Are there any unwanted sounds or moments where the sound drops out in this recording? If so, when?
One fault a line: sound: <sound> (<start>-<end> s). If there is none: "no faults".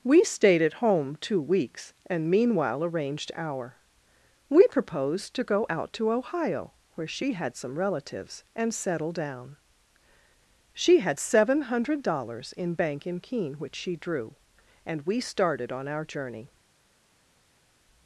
no faults